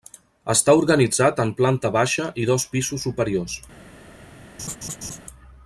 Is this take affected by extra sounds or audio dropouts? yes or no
yes